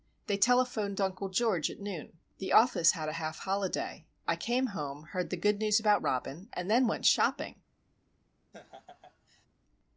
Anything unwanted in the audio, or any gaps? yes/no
yes